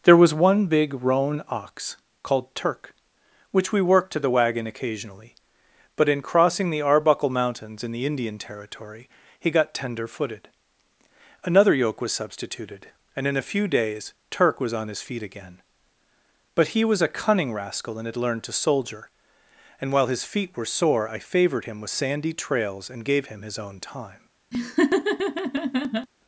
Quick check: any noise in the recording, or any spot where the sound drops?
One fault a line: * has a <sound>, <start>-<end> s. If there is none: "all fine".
* has a laugh, 24.5-26.1 s